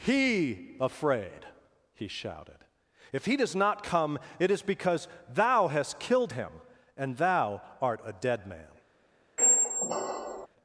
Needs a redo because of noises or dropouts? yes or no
yes